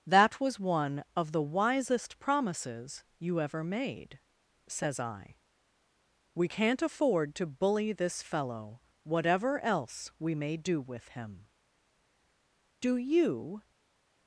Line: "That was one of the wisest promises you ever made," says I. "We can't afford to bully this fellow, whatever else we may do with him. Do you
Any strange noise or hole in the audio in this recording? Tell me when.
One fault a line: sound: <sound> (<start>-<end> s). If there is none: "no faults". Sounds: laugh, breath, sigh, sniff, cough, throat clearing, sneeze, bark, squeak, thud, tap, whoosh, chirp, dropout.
no faults